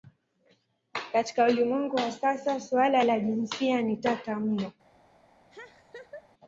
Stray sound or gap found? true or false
true